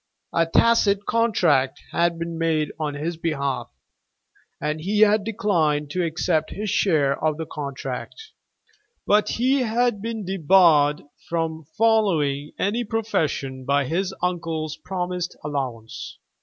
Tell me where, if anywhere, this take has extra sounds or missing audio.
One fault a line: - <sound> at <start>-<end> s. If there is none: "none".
none